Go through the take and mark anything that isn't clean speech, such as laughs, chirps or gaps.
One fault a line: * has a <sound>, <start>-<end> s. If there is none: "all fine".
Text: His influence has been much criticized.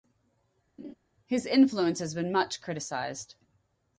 * has a laugh, 0.8-1.0 s